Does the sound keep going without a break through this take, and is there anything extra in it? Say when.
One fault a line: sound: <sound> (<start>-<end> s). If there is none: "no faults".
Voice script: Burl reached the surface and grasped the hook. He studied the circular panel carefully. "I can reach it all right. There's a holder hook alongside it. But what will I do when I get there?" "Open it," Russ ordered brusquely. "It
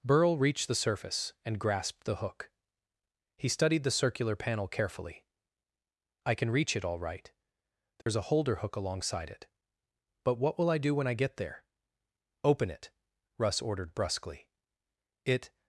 sound: dropout (8.0-8.1 s)